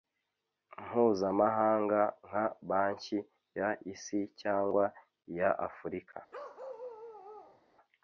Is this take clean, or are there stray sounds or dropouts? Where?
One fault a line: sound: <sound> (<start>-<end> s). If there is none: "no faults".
sound: bark (6.3-7.6 s)